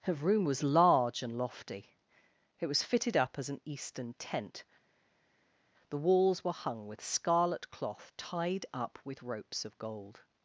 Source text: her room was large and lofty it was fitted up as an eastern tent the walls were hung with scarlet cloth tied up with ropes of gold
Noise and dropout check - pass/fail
pass